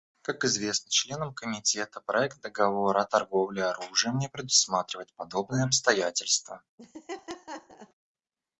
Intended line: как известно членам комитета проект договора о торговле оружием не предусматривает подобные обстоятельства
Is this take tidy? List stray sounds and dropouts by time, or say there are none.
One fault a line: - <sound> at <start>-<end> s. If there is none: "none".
- laugh at 6.8-7.9 s